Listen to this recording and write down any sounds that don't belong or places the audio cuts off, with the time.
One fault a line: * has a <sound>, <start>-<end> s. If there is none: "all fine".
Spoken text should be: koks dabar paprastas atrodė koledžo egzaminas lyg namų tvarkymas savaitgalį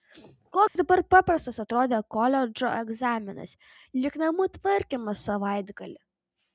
* has a dropout, 0.7-0.8 s